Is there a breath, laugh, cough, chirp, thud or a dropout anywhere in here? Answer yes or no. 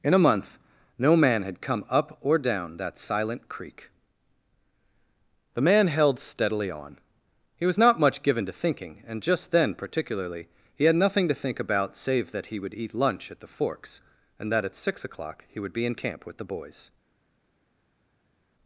no